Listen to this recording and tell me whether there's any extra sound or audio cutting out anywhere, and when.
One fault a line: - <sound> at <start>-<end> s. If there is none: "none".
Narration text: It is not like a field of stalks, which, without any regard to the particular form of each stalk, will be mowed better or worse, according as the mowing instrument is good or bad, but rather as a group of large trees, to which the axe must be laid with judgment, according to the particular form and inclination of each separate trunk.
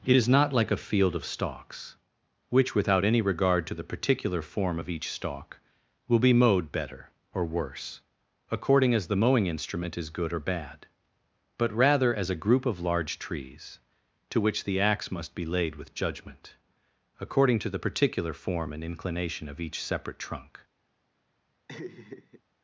- laugh at 21.7-22.4 s